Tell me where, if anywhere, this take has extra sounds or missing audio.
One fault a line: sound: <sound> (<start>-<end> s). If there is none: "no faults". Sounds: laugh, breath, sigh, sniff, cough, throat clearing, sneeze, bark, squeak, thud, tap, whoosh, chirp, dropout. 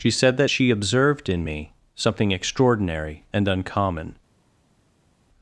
no faults